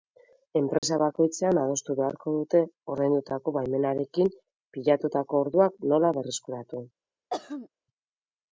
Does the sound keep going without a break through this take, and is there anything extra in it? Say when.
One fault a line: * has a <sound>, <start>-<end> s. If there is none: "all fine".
* has a dropout, 0.8-0.8 s
* has a throat clearing, 7.3-7.7 s